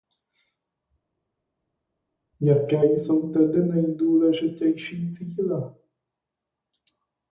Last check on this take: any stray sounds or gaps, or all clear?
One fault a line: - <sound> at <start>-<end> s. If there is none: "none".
none